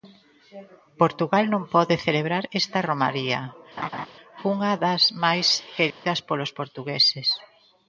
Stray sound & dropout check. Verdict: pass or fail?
fail